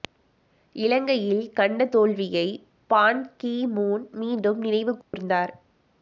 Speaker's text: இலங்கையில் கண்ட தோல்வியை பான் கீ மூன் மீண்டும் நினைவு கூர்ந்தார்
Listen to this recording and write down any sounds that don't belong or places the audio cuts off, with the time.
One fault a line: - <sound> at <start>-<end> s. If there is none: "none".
- dropout at 5.0-5.1 s